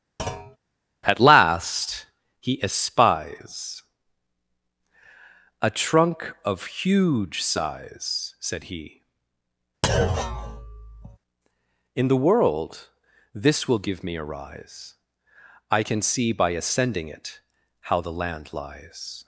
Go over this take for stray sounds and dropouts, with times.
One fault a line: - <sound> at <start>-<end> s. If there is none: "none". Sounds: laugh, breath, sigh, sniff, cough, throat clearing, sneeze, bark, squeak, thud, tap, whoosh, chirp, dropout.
- thud at 0.2-0.6 s
- thud at 9.8-11.2 s